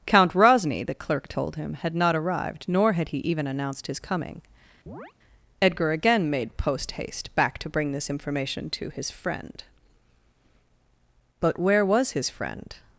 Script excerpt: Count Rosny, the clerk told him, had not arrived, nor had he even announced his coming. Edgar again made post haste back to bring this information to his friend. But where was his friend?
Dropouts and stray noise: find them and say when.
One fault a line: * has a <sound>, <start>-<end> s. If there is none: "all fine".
* has a chirp, 4.9-5.1 s